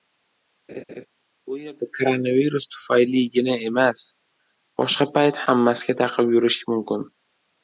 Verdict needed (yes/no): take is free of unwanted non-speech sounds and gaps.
no